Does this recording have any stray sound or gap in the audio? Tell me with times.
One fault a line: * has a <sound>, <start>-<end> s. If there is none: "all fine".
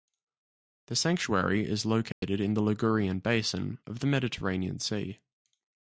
* has a dropout, 2.1-2.2 s